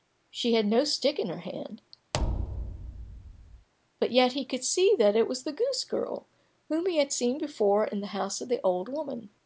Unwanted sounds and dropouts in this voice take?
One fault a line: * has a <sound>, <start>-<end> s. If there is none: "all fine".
* has a thud, 2.1-3.7 s